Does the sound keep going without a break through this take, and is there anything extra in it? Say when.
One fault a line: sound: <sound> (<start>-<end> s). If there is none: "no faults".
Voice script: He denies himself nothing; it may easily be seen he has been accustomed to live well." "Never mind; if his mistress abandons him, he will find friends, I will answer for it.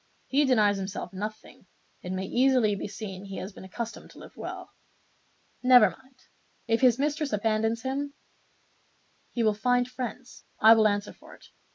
no faults